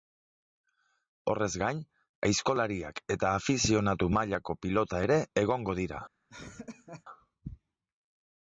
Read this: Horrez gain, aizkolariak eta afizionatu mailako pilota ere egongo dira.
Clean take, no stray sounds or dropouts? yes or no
no